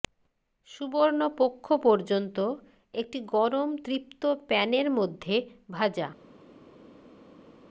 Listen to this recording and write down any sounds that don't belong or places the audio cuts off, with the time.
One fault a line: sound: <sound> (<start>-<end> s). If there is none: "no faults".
no faults